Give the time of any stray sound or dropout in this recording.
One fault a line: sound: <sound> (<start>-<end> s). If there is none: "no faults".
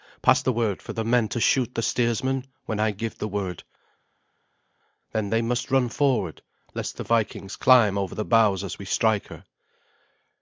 no faults